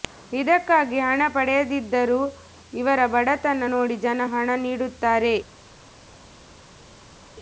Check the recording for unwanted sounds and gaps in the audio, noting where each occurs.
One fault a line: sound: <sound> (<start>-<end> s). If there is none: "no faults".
no faults